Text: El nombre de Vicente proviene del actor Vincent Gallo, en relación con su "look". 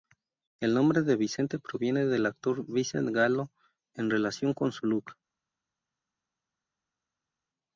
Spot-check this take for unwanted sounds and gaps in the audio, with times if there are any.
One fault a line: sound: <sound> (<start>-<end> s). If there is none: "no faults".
no faults